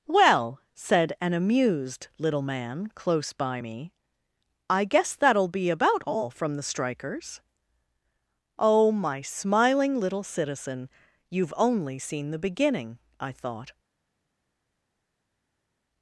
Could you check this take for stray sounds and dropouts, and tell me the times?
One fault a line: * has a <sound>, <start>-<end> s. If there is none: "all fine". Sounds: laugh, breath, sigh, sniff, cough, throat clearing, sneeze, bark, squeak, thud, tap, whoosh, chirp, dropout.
all fine